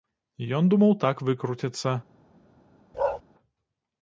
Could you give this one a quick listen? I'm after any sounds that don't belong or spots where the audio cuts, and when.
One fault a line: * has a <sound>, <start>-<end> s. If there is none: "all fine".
* has a bark, 2.9-3.2 s